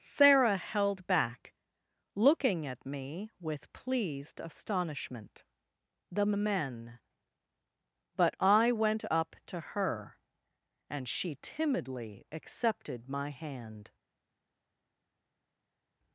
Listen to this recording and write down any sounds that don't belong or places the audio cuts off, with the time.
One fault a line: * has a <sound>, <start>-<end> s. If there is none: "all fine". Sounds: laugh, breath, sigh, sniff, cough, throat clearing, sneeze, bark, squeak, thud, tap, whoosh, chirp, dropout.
all fine